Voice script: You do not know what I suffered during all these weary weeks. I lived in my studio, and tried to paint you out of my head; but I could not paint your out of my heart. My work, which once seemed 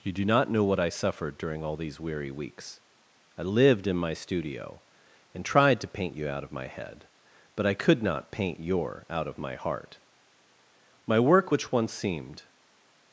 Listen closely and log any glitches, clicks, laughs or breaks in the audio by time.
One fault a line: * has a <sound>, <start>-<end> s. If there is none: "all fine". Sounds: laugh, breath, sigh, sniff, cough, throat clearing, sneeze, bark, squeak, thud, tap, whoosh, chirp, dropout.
all fine